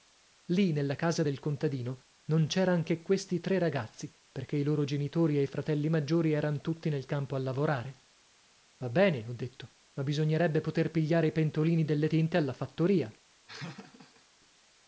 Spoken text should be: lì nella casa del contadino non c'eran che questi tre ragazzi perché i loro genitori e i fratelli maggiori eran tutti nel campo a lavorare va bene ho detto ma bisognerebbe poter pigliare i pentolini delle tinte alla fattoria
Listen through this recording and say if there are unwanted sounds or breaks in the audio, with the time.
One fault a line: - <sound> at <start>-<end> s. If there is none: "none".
- laugh at 13.5-14.3 s